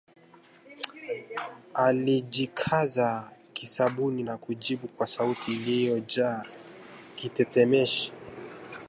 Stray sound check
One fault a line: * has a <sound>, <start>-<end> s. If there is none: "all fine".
all fine